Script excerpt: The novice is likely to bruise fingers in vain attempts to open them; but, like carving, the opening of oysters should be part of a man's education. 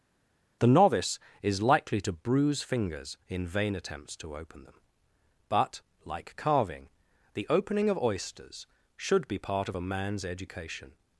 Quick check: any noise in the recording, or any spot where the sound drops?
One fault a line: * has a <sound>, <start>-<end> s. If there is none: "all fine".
all fine